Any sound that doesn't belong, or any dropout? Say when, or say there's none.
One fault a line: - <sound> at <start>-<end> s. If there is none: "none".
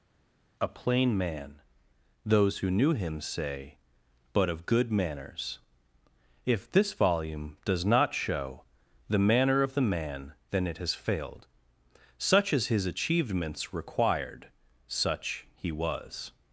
none